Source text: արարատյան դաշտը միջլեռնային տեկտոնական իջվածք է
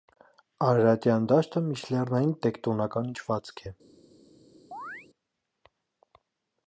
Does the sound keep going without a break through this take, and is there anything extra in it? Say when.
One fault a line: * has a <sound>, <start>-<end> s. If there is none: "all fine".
* has a chirp, 4.7-5.1 s